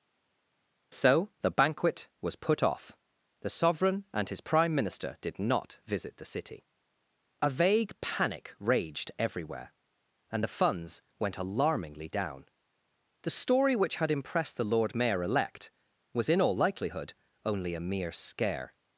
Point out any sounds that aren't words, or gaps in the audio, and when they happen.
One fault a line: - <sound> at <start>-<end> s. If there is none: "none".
none